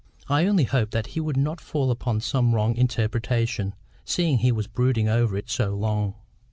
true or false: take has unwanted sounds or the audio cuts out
false